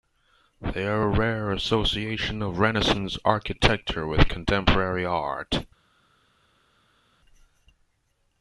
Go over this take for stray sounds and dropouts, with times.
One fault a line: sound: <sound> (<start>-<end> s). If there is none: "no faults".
no faults